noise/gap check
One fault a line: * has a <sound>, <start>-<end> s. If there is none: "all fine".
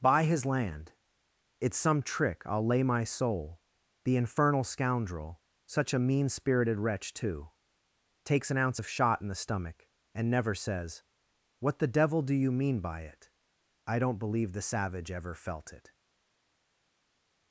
all fine